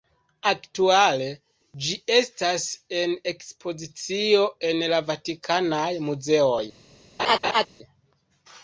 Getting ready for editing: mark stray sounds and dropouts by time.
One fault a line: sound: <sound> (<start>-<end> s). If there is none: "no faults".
sound: laugh (7.2-7.7 s)